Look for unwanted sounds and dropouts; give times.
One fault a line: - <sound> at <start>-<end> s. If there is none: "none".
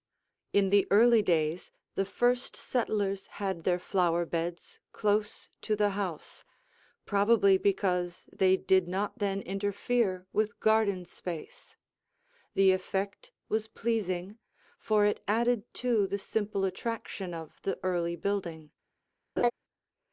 - laugh at 19.4-19.5 s